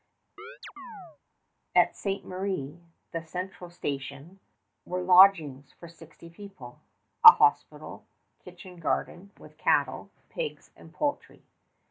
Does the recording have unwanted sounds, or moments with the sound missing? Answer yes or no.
yes